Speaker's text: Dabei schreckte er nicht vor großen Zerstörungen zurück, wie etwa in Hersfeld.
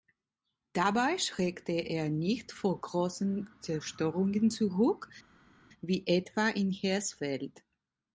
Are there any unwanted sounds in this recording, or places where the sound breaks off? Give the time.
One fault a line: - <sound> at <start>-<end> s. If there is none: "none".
none